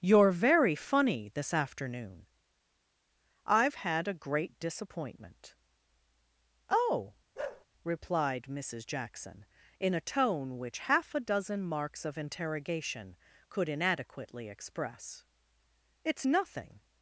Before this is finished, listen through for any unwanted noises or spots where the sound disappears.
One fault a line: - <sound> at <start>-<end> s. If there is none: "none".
- bark at 7.4-7.7 s